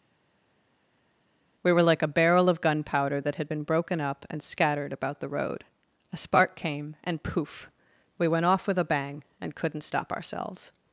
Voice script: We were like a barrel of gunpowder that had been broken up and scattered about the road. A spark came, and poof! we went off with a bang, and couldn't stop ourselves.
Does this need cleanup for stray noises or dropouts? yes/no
no